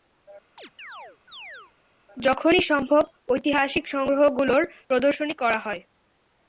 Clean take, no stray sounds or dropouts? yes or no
no